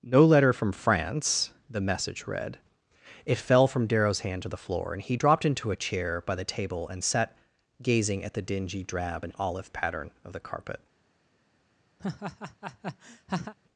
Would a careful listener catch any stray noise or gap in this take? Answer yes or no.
yes